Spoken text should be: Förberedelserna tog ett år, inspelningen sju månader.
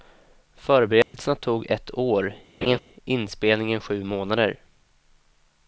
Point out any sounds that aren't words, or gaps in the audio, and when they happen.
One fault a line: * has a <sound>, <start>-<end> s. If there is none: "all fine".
* has a dropout, 1.0-1.1 s
* has a laugh, 2.6-2.8 s